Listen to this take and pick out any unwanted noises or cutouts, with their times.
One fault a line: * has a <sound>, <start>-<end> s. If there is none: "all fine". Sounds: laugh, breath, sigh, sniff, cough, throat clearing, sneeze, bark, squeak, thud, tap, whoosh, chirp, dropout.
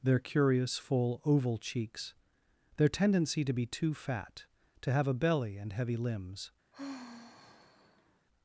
* has a sigh, 6.7-8.3 s